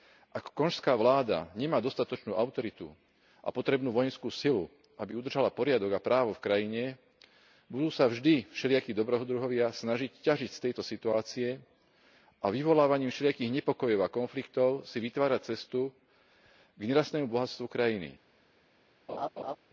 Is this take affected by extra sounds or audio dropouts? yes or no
yes